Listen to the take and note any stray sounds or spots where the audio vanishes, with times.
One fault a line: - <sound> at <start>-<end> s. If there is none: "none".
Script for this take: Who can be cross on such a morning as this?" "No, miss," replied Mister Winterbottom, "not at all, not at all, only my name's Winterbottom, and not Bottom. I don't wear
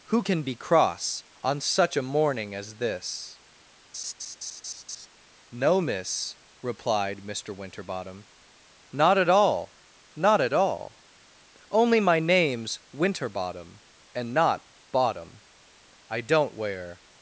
- laugh at 3.9-5.1 s